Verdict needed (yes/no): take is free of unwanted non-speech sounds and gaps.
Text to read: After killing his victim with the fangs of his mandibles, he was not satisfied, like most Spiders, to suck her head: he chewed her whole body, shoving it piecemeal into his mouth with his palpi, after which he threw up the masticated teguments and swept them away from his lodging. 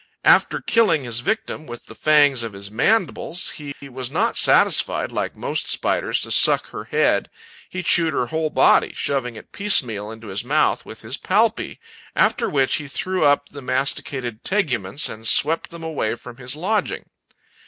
no